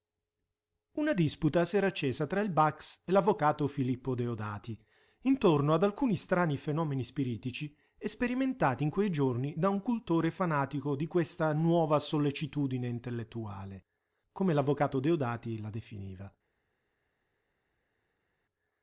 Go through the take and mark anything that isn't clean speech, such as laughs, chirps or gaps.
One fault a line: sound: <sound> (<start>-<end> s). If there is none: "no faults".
no faults